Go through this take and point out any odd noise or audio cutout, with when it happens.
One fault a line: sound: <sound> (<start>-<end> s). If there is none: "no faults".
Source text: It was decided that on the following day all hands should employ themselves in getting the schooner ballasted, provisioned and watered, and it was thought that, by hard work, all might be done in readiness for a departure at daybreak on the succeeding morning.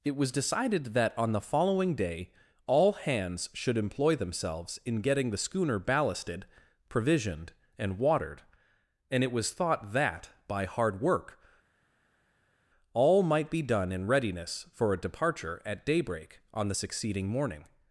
no faults